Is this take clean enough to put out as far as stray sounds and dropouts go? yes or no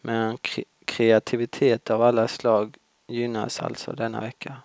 yes